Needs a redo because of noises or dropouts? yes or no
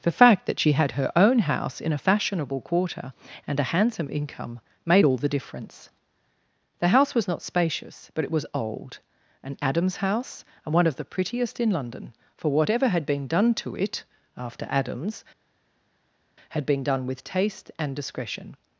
no